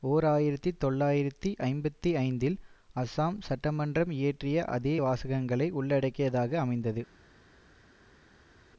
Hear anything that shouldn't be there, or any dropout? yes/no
no